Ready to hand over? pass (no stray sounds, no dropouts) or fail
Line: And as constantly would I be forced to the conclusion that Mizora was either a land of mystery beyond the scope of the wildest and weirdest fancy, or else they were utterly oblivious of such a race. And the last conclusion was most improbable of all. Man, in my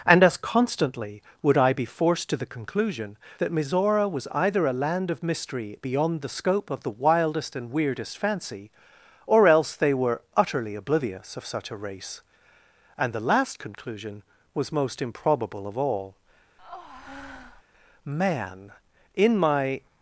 fail